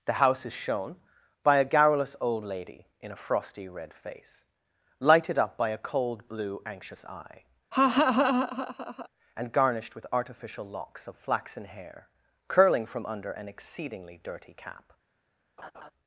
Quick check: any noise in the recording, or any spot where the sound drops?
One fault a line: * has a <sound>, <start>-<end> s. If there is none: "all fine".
* has a laugh, 7.7-9.1 s
* has a laugh, 15.6-15.9 s